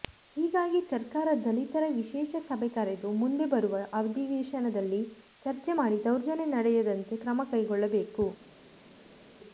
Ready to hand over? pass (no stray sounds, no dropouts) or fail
pass